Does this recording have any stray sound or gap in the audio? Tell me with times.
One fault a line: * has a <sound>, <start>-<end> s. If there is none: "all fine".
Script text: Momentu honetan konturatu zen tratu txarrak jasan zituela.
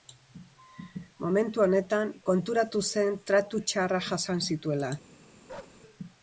* has a bark, 5.5-5.8 s